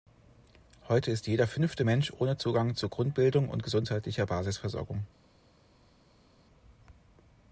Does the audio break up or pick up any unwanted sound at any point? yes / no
no